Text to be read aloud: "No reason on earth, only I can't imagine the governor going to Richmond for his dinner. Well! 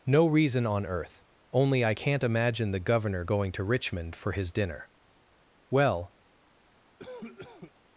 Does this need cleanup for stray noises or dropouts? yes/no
yes